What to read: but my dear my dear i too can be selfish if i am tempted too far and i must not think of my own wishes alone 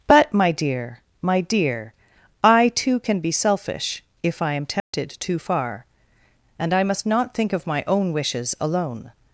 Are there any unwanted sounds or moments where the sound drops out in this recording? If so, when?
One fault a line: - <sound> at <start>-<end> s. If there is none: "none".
- dropout at 4.8-4.9 s